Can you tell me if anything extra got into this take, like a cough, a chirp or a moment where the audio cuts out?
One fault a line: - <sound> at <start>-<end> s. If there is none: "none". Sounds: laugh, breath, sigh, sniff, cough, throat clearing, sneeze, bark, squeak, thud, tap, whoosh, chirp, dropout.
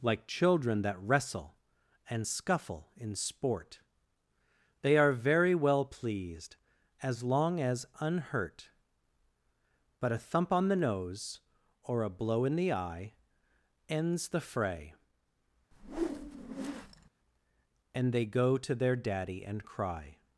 - whoosh at 15.7-17.1 s